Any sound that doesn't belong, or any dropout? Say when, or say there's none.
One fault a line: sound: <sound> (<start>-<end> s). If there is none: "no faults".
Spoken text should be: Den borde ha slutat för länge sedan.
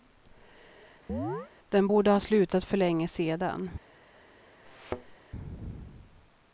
sound: chirp (1.1-1.5 s)
sound: thud (4.6-5.2 s)